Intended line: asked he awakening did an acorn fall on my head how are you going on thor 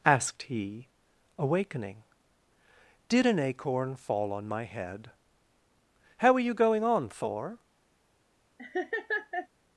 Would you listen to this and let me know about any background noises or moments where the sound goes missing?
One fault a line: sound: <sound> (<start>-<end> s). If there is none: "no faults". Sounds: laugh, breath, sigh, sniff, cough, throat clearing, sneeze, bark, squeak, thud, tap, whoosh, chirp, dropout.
sound: laugh (8.6-9.5 s)